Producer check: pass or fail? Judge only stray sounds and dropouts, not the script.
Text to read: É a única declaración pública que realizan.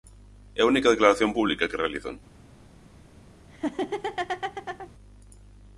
fail